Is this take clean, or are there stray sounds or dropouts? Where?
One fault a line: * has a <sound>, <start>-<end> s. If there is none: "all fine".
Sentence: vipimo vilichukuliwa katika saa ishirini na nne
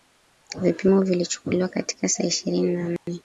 * has a dropout, 3.0-3.1 s